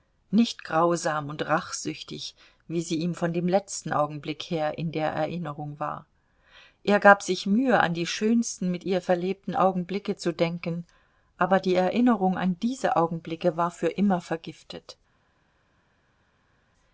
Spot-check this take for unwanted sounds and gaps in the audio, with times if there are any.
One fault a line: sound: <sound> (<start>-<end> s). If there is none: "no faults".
no faults